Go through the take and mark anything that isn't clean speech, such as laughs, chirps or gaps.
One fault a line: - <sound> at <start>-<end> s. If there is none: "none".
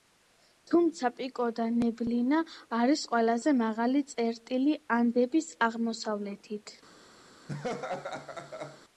- laugh at 7.5-8.8 s